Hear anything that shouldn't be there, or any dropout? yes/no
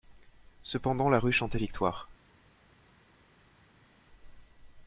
no